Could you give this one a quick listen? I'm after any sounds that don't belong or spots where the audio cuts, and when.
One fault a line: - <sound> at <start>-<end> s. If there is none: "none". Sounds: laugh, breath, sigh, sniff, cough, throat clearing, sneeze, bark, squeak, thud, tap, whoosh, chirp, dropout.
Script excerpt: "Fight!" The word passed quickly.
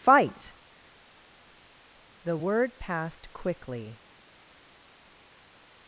none